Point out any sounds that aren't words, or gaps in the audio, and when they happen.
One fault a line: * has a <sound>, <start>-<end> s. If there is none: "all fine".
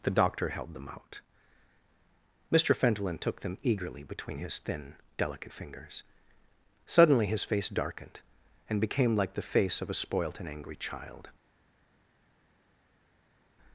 all fine